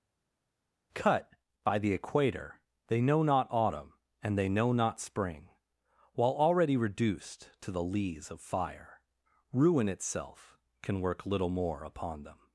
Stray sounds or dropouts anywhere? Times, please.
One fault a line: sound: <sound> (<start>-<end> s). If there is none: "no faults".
no faults